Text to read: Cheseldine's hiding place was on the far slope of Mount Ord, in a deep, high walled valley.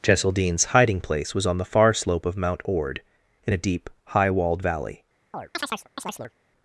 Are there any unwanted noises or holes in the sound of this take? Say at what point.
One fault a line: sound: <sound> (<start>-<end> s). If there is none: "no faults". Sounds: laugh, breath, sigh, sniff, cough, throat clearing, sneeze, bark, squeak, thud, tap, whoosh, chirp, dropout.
sound: chirp (5.3-6.3 s)